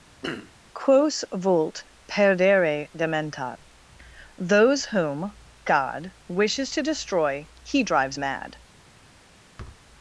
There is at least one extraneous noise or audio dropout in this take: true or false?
true